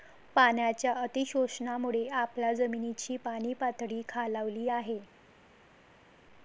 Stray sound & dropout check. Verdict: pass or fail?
pass